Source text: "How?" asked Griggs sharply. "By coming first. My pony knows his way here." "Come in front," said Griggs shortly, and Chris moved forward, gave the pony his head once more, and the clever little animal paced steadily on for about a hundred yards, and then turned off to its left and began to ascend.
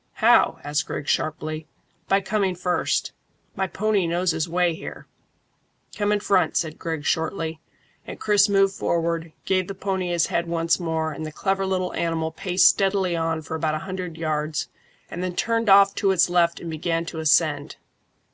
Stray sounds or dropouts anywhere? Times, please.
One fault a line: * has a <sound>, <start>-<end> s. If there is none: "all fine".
all fine